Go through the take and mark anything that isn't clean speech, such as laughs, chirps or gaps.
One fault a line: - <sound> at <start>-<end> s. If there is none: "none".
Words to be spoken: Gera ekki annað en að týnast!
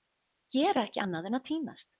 none